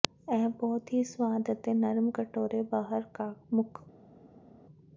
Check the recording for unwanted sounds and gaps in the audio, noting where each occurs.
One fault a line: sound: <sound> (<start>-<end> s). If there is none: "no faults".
no faults